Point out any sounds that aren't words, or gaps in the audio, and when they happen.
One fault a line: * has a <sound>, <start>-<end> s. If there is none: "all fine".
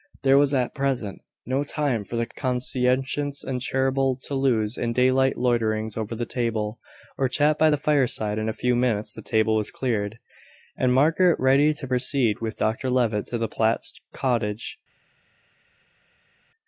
all fine